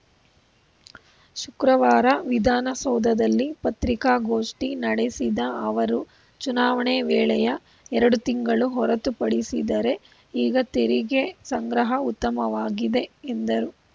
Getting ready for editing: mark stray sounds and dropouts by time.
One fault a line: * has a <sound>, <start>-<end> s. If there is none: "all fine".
all fine